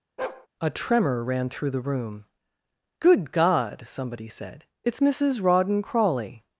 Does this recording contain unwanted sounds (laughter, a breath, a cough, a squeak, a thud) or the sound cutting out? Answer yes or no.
yes